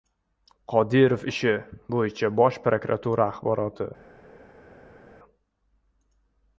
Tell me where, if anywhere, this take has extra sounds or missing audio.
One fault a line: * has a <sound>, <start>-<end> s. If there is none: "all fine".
all fine